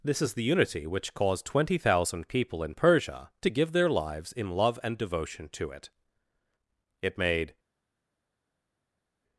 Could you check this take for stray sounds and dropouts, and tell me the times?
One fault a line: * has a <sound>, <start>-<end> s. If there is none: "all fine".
all fine